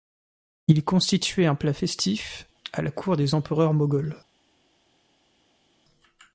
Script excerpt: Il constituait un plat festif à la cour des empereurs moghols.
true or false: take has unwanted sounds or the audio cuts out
false